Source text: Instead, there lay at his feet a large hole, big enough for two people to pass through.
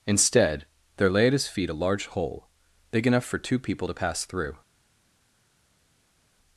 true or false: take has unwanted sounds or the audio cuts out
false